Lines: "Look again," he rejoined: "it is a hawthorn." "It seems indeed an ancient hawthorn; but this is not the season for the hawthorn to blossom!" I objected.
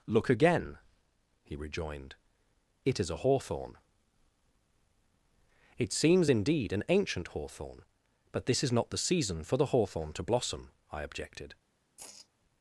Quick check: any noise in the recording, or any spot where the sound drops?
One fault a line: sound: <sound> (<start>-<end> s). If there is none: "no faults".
sound: sigh (12.0-12.3 s)